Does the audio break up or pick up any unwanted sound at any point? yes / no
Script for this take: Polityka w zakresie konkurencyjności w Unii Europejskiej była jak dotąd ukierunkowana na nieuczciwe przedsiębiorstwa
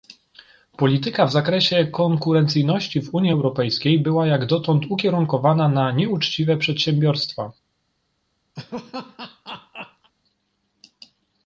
yes